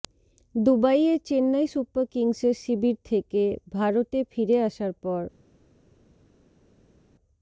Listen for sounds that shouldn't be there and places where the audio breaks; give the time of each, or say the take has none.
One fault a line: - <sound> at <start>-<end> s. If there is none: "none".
none